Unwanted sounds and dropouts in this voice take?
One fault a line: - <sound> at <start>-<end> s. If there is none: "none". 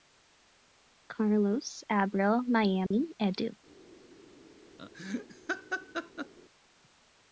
- dropout at 2.9-2.9 s
- laugh at 4.8-6.3 s